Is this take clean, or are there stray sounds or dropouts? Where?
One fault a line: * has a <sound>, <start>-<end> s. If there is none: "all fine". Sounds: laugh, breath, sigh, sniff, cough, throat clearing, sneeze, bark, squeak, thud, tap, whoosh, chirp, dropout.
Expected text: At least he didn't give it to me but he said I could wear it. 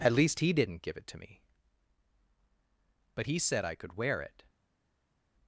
all fine